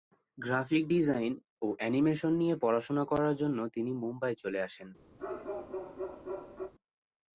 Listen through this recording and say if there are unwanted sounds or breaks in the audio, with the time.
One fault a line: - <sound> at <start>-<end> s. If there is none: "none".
- bark at 5.2-6.7 s